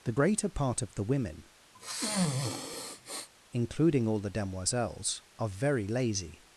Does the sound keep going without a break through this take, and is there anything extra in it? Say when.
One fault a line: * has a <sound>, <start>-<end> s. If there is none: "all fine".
* has a sniff, 1.7-3.3 s